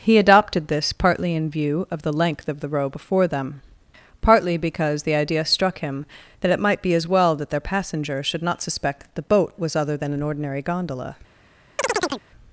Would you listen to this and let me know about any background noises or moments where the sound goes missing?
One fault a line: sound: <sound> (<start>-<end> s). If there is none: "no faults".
sound: chirp (11.8-12.3 s)